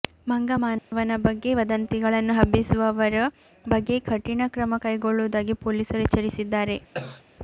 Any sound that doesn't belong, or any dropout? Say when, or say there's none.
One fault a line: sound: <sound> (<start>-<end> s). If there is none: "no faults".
sound: dropout (0.8-0.9 s)
sound: cough (6.9-7.2 s)